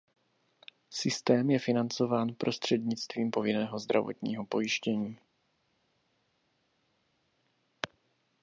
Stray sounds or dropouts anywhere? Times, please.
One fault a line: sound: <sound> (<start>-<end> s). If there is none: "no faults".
no faults